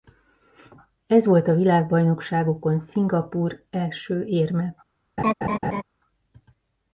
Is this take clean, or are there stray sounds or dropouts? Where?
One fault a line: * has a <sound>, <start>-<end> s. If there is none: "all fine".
* has a laugh, 5.2-5.8 s